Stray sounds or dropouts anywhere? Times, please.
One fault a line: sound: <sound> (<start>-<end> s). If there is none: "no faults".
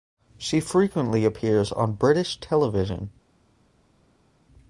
no faults